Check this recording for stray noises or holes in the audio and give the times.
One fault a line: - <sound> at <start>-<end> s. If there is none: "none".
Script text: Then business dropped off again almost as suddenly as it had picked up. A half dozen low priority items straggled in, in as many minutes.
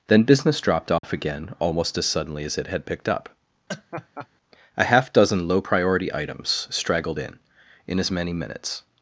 - dropout at 1.0-1.0 s
- laugh at 3.7-4.3 s